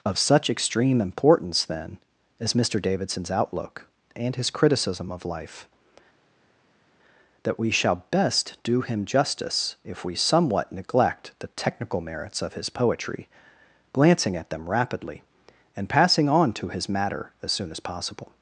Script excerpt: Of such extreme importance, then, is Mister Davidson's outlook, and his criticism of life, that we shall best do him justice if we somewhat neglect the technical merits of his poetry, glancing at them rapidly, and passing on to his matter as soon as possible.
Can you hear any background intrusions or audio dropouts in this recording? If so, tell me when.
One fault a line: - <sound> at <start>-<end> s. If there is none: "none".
none